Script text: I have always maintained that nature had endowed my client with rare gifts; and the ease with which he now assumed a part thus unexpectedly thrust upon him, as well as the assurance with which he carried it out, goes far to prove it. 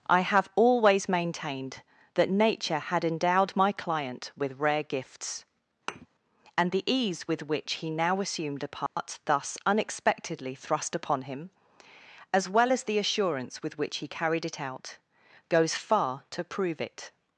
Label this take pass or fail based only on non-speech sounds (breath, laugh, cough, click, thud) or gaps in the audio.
fail